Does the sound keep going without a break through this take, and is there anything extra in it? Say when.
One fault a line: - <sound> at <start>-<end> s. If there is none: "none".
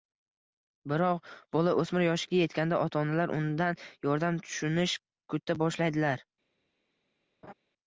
- laugh at 7.4-7.5 s